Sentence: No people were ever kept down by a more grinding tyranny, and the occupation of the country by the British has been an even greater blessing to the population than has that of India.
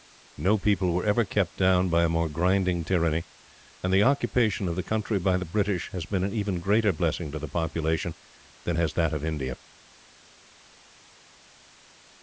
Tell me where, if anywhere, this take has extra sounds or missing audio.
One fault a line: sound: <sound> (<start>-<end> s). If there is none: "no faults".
no faults